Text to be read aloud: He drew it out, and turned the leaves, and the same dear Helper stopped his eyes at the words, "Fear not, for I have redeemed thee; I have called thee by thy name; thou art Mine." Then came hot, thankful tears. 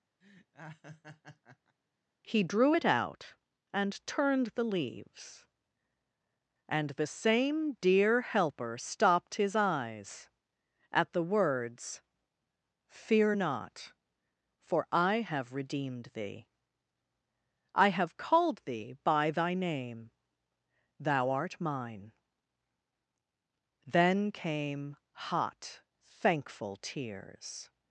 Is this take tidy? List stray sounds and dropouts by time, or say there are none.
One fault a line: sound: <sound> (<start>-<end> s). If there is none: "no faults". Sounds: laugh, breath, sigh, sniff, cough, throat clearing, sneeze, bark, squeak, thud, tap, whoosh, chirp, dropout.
sound: laugh (0.2-1.8 s)